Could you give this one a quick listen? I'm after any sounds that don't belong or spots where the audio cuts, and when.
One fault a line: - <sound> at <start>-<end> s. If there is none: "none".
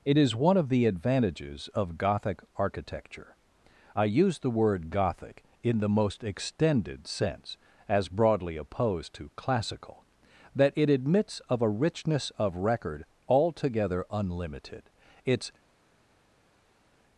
none